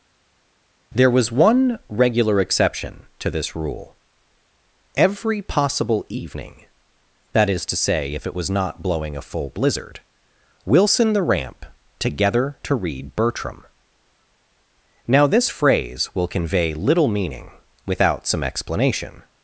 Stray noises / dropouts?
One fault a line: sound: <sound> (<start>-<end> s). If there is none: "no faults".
no faults